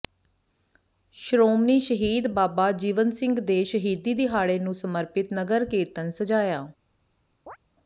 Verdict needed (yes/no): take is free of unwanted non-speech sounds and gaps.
no